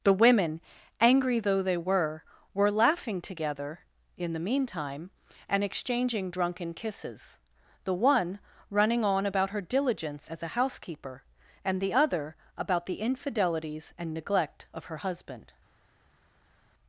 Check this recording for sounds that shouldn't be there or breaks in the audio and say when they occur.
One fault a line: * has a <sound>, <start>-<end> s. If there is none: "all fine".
all fine